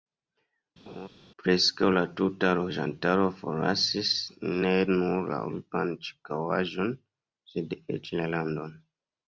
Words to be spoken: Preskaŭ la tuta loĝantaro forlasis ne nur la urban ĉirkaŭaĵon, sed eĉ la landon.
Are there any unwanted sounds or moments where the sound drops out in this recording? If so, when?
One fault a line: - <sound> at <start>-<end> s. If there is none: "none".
- laugh at 0.9-1.1 s